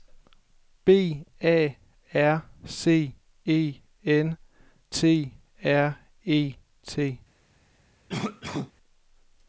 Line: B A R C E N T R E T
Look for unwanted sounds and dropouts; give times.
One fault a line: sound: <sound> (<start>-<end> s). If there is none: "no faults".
sound: cough (8.1-8.7 s)